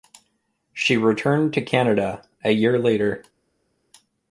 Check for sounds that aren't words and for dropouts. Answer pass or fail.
pass